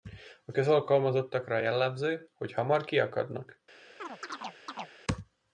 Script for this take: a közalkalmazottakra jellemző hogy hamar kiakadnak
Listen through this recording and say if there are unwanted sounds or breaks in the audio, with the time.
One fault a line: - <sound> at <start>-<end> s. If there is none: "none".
- chirp at 4.0-4.9 s